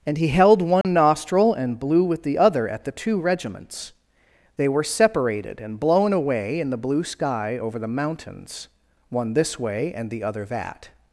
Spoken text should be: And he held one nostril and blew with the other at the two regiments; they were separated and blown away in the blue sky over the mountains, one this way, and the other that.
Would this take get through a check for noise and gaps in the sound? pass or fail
fail